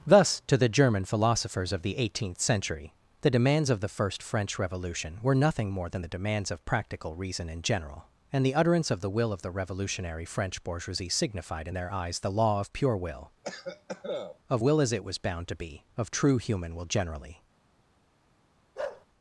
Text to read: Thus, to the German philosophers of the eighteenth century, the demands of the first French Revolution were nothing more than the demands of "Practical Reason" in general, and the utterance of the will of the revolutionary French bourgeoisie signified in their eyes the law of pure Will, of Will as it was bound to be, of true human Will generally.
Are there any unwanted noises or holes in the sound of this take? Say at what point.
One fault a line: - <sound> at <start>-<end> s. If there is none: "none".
- cough at 13.4-14.4 s
- bark at 18.8-19.1 s